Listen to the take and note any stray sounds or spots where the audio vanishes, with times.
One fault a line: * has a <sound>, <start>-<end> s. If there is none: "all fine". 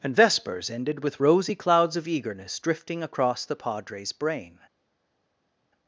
all fine